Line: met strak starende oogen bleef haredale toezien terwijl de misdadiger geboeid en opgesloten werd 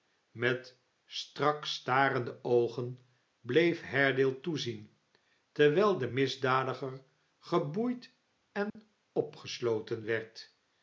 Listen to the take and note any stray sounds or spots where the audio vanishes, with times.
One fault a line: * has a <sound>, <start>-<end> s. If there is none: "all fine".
* has a dropout, 8.7-8.8 s